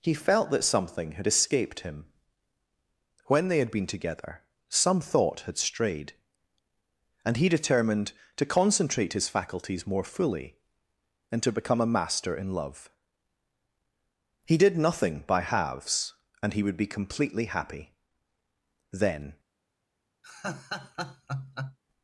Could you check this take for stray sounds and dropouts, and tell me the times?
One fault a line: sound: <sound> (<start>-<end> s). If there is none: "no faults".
sound: laugh (20.2-21.8 s)